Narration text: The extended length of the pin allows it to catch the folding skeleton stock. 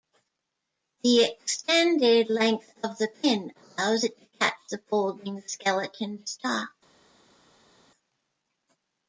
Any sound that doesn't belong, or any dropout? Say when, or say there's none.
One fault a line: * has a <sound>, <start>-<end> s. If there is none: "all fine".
all fine